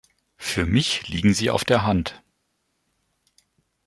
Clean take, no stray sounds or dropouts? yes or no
yes